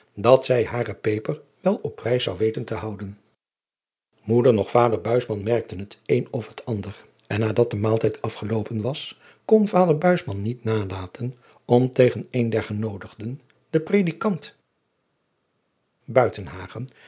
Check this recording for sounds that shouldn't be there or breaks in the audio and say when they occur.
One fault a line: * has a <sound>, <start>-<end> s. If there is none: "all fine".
all fine